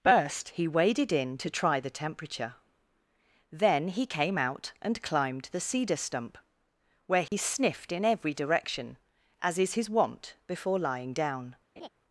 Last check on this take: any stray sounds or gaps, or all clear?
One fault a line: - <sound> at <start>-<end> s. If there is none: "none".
- dropout at 7.3-7.3 s
- laugh at 11.8-11.9 s